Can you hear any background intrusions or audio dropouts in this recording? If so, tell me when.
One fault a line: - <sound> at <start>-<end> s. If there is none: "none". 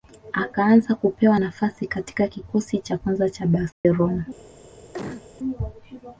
- dropout at 3.7-3.8 s
- cough at 4.9-5.3 s